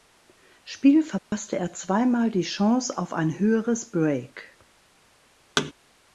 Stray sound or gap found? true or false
true